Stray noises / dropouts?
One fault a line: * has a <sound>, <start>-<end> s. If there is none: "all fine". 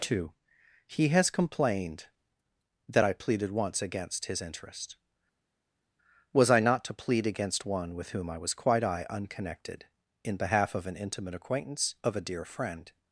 all fine